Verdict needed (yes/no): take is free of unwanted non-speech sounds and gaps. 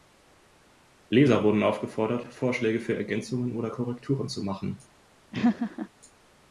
no